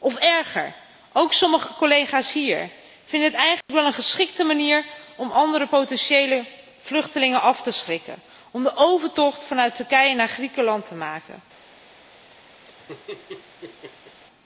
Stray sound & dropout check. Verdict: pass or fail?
fail